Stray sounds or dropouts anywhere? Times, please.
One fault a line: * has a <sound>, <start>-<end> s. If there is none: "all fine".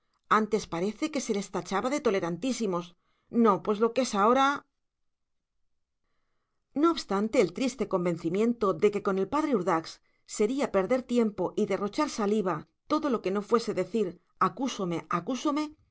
all fine